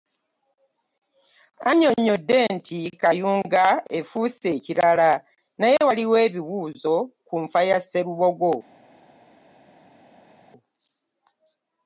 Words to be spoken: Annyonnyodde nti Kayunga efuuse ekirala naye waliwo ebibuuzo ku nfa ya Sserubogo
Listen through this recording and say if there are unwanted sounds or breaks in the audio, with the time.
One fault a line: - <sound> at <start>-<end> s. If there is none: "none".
none